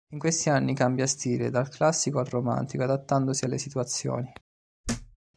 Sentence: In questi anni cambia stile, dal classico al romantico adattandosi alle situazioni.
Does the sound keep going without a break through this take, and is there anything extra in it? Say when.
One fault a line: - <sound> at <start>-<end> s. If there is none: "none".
- thud at 4.8-5.2 s